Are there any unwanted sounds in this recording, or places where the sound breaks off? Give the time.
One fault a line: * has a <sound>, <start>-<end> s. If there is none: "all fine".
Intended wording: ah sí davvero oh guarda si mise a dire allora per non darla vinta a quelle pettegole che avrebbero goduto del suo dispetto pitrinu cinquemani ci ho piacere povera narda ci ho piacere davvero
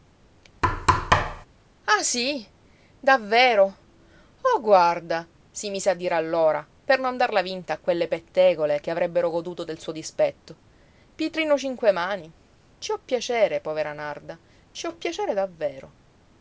* has a thud, 0.6-1.5 s